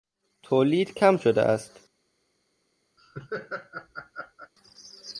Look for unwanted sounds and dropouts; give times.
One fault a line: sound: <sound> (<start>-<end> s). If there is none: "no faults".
sound: laugh (3.0-4.5 s)